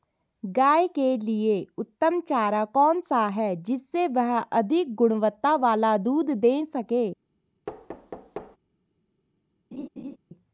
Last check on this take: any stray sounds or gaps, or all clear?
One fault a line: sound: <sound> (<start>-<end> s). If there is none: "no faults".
sound: thud (7.7-8.6 s)
sound: laugh (9.7-10.2 s)